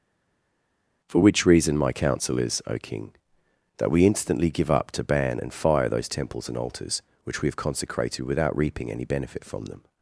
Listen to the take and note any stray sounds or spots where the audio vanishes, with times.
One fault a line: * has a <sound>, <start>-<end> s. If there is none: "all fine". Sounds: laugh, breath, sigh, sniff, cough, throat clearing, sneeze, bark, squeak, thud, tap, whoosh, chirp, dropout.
all fine